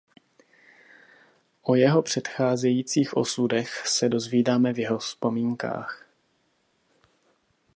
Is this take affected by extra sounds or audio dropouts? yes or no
no